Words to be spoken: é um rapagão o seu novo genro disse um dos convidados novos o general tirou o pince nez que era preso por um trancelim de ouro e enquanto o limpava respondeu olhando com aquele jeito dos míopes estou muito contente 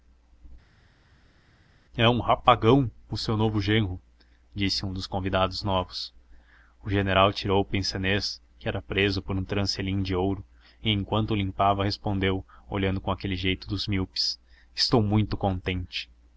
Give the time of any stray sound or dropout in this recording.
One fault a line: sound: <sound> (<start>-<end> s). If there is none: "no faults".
no faults